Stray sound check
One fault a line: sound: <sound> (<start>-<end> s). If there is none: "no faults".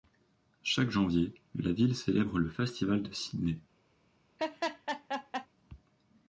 sound: laugh (4.4-5.5 s)